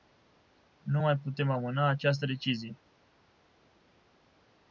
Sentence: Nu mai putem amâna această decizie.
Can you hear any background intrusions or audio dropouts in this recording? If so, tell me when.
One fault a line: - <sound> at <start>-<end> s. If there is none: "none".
none